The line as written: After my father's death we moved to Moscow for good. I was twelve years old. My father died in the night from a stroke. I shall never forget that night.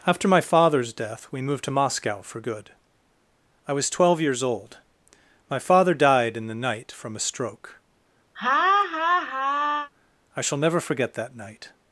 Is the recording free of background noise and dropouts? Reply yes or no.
no